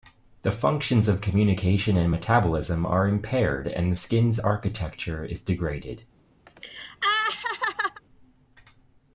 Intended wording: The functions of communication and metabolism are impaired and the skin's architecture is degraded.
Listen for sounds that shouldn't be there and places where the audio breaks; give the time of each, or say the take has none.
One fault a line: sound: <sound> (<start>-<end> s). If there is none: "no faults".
sound: laugh (6.5-8.0 s)